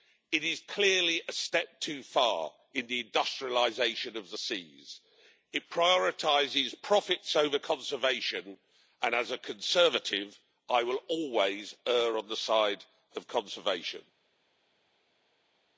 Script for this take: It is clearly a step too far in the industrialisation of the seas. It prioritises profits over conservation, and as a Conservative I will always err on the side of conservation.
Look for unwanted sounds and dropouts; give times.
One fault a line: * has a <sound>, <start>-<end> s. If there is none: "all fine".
all fine